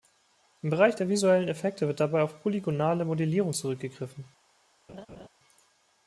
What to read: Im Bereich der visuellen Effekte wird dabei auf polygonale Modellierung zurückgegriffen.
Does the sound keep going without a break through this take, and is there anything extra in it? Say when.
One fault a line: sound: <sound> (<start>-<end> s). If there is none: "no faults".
sound: laugh (4.9-5.3 s)